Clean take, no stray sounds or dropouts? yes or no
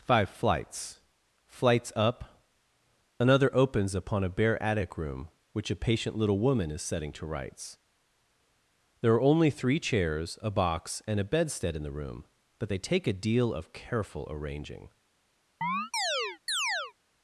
no